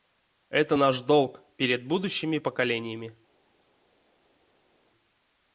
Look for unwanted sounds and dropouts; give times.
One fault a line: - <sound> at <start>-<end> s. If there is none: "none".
none